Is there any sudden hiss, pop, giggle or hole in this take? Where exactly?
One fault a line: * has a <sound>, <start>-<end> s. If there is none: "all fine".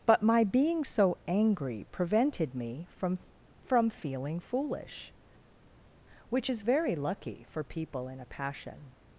all fine